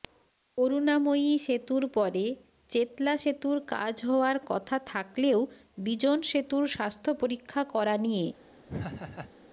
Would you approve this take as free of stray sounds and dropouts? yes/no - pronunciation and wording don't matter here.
no